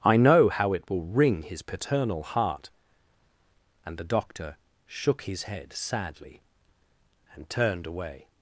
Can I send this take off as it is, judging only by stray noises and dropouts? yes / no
yes